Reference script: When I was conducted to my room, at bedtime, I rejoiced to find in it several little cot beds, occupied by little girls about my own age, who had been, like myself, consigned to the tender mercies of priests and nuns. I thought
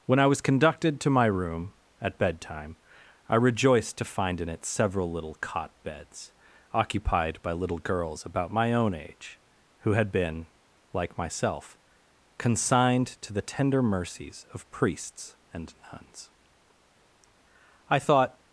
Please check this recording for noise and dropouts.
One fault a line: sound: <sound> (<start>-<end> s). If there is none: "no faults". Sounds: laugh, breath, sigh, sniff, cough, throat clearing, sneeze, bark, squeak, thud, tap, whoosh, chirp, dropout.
no faults